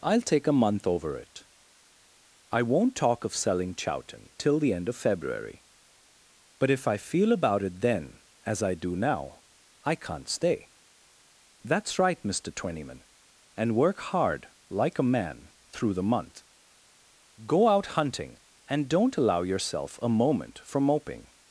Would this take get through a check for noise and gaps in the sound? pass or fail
pass